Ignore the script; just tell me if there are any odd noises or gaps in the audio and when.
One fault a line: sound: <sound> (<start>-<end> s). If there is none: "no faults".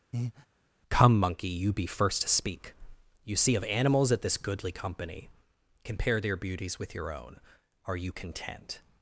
sound: breath (0.1-0.5 s)